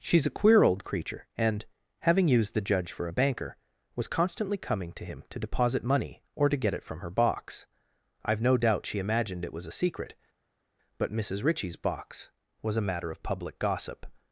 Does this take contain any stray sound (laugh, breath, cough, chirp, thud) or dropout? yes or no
no